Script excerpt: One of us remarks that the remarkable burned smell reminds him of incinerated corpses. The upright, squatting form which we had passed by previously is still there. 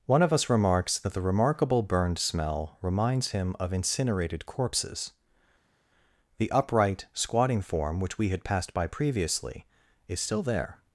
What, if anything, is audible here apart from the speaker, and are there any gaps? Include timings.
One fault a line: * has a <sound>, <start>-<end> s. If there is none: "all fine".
all fine